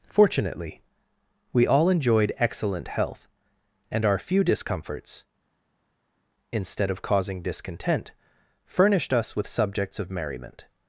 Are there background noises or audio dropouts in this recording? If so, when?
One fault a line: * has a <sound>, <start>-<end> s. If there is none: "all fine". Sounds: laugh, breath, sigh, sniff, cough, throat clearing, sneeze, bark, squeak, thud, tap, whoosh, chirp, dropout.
all fine